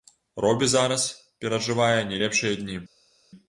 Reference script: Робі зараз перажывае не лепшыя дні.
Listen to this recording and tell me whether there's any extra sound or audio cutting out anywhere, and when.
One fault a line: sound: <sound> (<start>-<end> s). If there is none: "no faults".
no faults